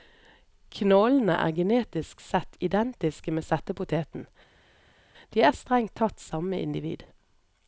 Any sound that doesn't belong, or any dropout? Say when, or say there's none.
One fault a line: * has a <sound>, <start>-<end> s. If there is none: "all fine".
all fine